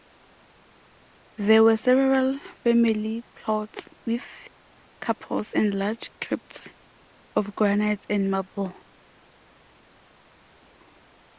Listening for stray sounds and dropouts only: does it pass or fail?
pass